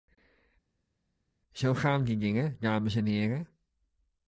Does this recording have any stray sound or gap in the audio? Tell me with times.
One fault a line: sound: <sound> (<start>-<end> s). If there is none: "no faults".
no faults